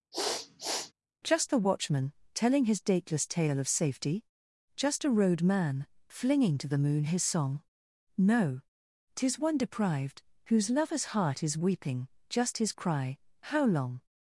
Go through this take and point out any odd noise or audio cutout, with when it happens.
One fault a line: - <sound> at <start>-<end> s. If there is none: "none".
- sniff at 0.1-0.9 s